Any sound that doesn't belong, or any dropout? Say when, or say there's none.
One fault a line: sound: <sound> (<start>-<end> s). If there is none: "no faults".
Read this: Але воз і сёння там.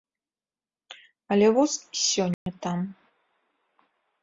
sound: dropout (2.3-2.5 s)